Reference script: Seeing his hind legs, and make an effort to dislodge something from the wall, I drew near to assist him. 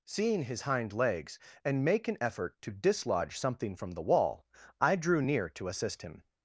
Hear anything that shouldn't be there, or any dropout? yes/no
no